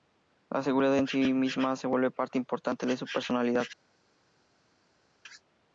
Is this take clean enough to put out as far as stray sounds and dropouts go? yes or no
yes